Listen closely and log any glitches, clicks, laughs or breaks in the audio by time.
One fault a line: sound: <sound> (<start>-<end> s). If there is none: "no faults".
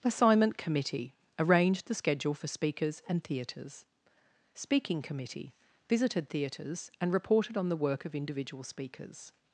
no faults